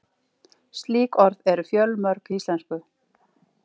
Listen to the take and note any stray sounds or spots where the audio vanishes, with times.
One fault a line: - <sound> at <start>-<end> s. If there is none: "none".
none